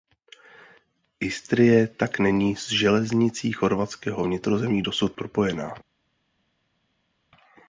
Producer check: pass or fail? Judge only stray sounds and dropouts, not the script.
pass